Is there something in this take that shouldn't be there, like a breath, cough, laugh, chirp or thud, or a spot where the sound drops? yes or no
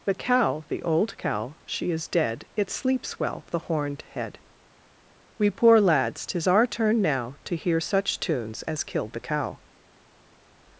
no